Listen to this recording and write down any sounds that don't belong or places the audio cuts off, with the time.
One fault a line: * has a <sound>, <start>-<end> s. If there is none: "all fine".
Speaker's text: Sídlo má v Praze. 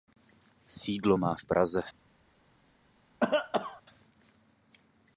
* has a cough, 3.2-3.8 s